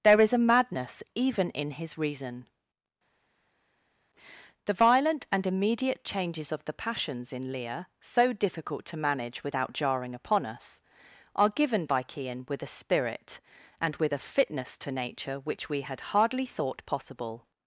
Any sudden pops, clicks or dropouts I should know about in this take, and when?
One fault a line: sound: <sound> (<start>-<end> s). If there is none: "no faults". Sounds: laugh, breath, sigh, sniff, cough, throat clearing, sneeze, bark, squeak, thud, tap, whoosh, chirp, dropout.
no faults